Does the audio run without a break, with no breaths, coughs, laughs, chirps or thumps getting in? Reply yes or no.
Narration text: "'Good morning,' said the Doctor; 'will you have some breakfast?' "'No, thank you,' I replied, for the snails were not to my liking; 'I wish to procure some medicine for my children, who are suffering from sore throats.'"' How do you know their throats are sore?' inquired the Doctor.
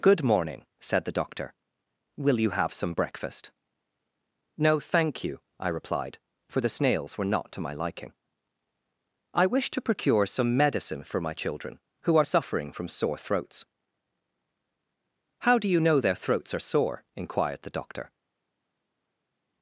yes